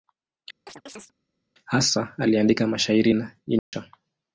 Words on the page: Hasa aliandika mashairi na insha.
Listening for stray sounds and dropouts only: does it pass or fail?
fail